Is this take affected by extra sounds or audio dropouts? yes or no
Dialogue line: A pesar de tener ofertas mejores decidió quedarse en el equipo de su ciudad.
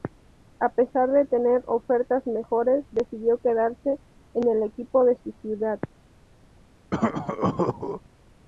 yes